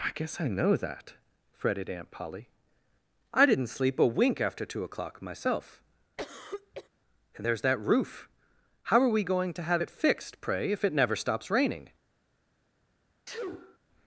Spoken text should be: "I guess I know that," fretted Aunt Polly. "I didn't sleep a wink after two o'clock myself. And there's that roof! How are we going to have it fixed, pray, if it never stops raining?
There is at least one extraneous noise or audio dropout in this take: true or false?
true